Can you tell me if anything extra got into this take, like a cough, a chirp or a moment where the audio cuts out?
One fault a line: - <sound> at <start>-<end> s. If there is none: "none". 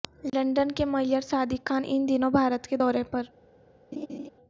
- laugh at 3.9-4.3 s